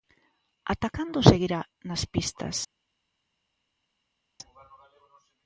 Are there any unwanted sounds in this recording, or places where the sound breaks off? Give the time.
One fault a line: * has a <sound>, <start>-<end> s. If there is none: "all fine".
all fine